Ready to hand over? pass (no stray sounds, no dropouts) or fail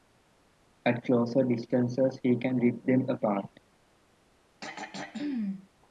fail